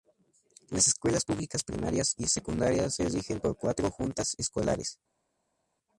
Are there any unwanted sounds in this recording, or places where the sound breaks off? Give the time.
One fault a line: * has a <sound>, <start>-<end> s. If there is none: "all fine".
all fine